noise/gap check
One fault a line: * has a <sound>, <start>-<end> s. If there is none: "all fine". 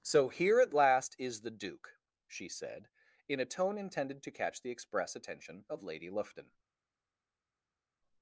all fine